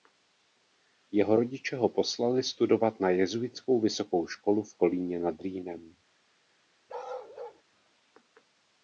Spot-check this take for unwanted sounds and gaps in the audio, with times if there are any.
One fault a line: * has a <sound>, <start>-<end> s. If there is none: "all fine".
* has a bark, 6.9-7.6 s